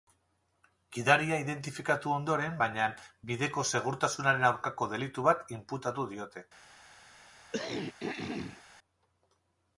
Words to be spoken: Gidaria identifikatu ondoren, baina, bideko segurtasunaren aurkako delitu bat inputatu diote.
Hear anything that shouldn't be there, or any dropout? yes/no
yes